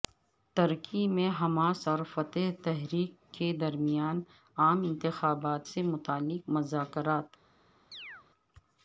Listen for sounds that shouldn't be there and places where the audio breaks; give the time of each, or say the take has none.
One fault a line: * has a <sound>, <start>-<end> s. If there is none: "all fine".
* has a chirp, 7.9-8.3 s